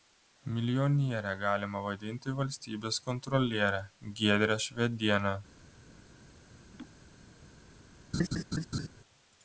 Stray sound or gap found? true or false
true